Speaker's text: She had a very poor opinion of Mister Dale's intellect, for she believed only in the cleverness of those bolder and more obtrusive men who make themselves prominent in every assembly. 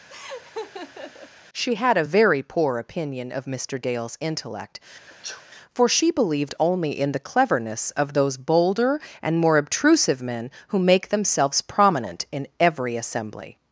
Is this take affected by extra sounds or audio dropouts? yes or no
yes